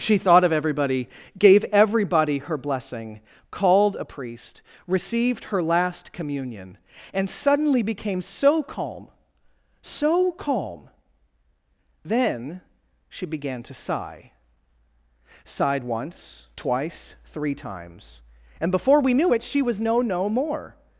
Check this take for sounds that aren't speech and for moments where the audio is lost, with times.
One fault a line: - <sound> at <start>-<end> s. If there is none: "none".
none